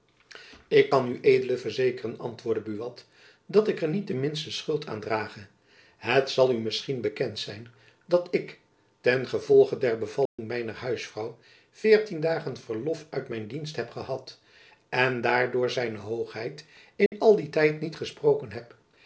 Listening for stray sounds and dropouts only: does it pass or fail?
fail